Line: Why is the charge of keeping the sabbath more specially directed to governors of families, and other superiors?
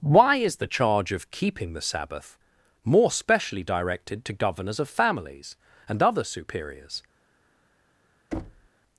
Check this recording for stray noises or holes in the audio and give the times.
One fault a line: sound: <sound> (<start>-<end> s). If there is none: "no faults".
sound: thud (8.3-8.7 s)